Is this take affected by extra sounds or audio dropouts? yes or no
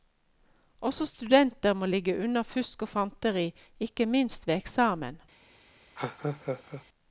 yes